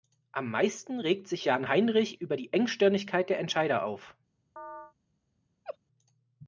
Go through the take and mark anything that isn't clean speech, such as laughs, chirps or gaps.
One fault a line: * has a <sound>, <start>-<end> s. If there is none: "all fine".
* has a chirp, 4.6-4.9 s
* has a laugh, 5.6-5.8 s